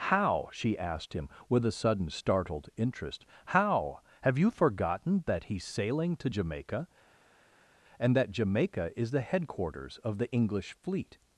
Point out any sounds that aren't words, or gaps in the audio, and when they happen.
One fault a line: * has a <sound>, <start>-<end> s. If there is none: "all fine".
all fine